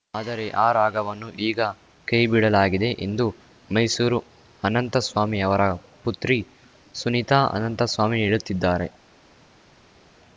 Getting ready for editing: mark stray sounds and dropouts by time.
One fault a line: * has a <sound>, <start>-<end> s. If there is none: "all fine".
all fine